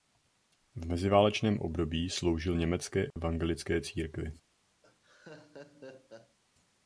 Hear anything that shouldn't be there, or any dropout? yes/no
yes